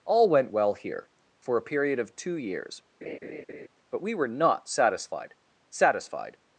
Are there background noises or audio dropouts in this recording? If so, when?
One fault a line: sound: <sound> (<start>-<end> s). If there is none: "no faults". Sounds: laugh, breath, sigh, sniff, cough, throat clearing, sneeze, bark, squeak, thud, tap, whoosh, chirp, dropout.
sound: laugh (3.0-3.7 s)